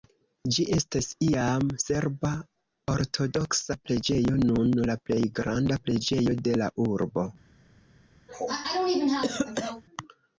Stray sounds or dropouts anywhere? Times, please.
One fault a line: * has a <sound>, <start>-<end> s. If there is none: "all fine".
* has a cough, 8.3-9.8 s